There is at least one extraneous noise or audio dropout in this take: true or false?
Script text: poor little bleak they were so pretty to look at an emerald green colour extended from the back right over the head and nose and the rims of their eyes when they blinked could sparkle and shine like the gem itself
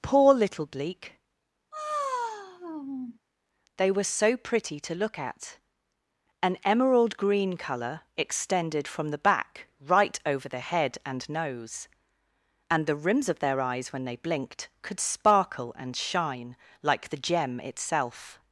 true